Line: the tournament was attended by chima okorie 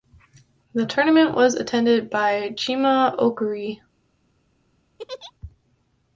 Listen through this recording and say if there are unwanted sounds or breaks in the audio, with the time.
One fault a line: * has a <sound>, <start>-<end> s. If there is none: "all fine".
* has a laugh, 5.0-5.3 s